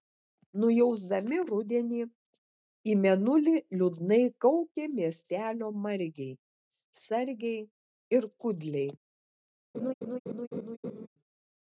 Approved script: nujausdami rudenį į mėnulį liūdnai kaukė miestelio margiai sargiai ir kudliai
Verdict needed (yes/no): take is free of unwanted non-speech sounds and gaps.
no